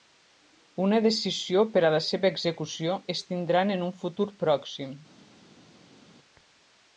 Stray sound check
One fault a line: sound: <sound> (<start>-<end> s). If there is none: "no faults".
no faults